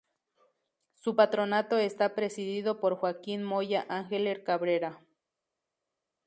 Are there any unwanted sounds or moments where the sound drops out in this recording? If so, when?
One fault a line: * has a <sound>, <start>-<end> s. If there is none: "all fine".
all fine